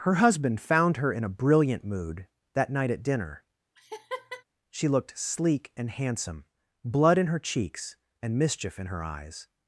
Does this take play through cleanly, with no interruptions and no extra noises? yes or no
no